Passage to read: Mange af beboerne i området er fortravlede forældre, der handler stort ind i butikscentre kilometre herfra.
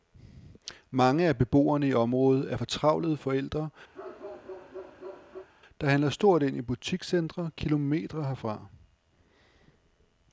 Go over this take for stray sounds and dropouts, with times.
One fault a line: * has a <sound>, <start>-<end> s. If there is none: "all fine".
* has a bark, 3.9-5.5 s